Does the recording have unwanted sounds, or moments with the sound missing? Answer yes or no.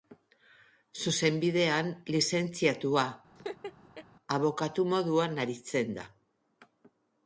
yes